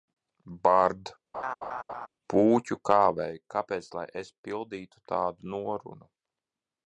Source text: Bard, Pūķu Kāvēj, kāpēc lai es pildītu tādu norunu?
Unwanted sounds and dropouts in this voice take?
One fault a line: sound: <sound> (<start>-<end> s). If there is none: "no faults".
sound: laugh (1.3-2.1 s)